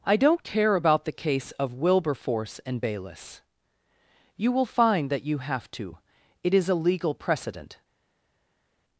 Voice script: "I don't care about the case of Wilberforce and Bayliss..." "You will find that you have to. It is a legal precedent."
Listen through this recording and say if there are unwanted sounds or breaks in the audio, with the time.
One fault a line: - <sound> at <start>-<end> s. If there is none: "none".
none